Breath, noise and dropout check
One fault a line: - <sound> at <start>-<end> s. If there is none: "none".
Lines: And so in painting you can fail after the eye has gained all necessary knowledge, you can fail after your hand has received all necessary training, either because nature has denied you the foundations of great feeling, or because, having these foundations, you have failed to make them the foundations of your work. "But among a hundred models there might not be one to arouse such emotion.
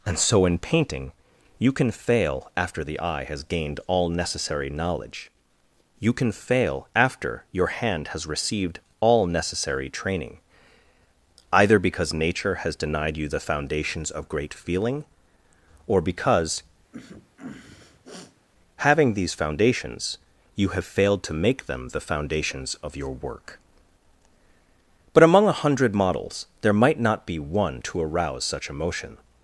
- sneeze at 16.9-18.5 s